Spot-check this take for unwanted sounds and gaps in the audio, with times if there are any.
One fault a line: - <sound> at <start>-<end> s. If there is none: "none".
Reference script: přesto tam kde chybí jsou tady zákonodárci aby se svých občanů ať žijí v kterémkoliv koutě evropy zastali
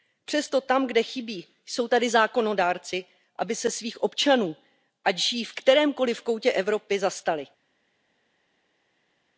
none